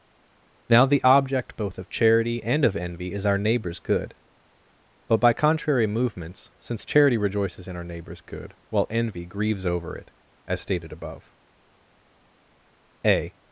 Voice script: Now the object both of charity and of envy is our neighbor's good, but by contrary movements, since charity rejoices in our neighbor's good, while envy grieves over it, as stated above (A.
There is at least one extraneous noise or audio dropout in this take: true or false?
false